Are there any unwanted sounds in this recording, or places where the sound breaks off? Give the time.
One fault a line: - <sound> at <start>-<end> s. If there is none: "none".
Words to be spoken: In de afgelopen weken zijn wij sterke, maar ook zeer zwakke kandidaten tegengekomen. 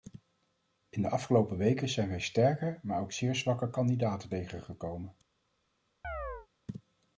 - chirp at 6.0-6.5 s